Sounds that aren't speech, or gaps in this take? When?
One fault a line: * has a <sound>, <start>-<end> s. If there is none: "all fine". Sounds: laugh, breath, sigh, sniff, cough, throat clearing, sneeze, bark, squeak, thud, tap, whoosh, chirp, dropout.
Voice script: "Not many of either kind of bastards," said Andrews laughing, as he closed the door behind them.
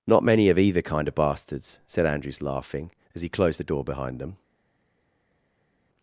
all fine